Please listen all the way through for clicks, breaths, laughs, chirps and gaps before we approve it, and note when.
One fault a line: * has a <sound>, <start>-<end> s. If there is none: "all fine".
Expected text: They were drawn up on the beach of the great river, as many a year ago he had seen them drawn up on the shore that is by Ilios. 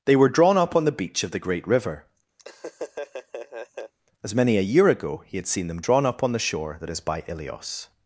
* has a laugh, 2.4-3.9 s